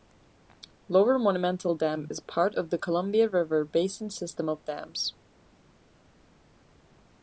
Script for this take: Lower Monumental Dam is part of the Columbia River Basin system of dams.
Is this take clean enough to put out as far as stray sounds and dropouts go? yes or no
yes